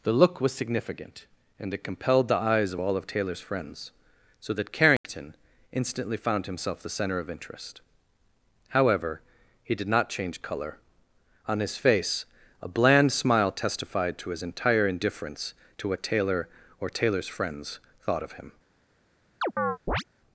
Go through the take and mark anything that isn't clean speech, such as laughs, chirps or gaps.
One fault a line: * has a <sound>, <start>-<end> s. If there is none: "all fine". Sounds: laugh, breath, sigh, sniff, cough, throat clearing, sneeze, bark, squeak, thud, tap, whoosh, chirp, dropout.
* has a dropout, 5.0-5.0 s
* has a chirp, 19.4-20.0 s